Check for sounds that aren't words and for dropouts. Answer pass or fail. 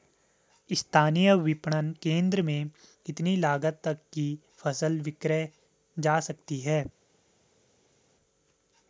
pass